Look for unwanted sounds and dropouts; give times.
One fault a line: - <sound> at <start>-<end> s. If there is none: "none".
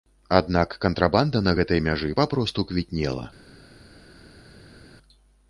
none